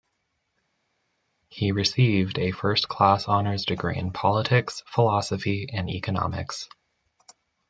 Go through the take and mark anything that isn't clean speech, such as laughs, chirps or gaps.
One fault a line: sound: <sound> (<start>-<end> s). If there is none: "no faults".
no faults